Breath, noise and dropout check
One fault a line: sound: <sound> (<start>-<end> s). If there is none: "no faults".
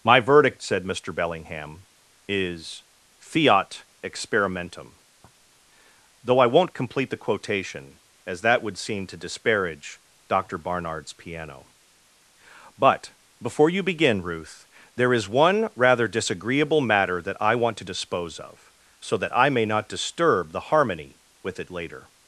no faults